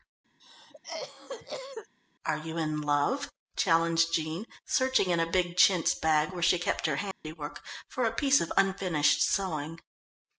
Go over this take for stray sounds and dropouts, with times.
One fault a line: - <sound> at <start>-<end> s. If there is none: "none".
- cough at 0.4-1.9 s
- dropout at 7.1-7.2 s